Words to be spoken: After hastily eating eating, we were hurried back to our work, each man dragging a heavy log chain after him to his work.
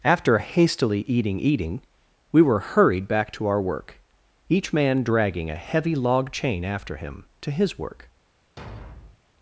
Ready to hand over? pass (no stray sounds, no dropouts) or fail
fail